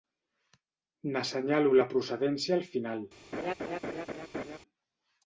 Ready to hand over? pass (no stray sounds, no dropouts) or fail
fail